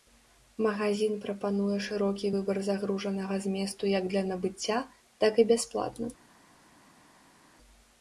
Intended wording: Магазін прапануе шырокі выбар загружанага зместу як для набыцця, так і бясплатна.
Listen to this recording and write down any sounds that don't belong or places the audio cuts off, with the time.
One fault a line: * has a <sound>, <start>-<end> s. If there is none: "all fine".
all fine